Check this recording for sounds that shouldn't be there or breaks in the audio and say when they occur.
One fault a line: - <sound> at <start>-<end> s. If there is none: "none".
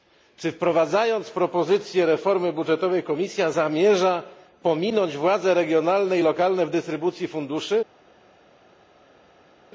none